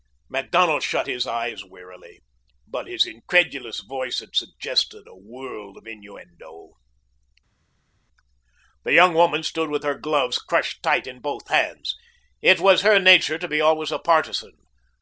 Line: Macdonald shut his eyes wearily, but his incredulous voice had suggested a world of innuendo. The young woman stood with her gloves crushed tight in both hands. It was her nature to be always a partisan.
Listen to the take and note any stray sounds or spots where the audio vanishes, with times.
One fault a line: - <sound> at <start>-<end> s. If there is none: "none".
none